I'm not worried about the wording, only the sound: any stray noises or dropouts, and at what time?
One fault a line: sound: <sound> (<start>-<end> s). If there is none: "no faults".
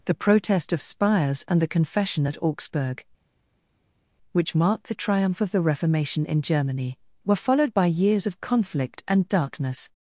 no faults